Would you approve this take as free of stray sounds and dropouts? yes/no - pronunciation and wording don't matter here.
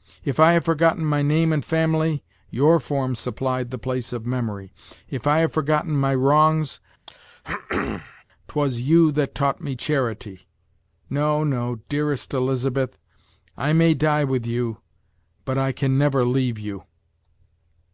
no